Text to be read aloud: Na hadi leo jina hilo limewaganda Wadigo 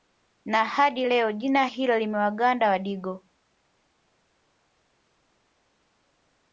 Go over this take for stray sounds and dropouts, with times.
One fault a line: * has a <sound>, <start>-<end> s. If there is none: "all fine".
all fine